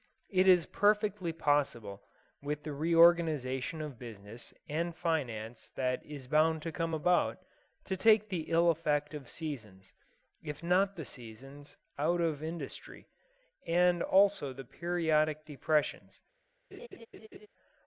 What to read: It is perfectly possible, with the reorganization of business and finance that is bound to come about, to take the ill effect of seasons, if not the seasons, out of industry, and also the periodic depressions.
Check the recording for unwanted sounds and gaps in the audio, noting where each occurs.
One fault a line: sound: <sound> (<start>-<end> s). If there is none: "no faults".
sound: laugh (16.7-17.5 s)